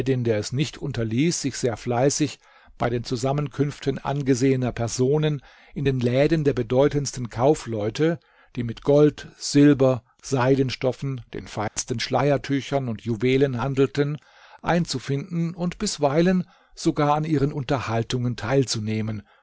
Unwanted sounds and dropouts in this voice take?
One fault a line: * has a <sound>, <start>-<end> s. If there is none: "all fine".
* has a dropout, 11.7-11.8 s